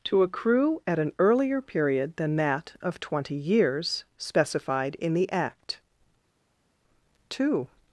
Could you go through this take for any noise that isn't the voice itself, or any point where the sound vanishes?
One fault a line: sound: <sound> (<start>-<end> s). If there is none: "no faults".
no faults